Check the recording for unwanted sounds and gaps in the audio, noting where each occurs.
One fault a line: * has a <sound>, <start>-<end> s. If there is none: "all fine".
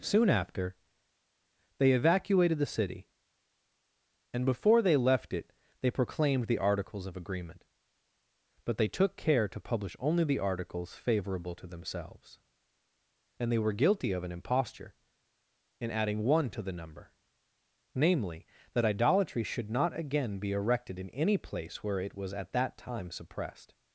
all fine